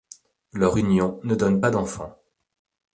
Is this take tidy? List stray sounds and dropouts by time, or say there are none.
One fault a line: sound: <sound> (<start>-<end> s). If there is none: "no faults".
no faults